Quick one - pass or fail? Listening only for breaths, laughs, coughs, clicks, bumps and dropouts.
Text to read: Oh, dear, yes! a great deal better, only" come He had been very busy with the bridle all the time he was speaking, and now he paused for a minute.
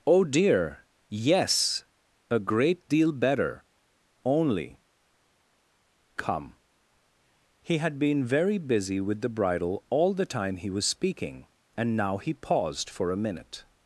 pass